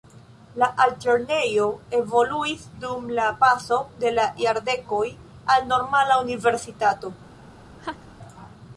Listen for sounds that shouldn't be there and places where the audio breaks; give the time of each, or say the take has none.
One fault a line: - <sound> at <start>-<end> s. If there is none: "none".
- laugh at 7.8-8.1 s